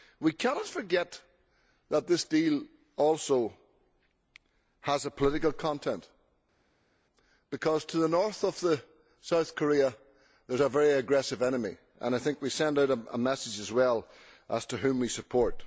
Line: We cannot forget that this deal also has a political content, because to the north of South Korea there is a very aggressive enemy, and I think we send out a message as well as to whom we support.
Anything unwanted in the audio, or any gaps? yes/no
no